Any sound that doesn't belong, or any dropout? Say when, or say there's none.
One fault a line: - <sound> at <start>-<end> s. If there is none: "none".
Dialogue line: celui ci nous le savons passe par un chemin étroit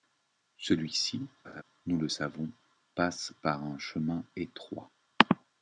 - laugh at 1.4-1.6 s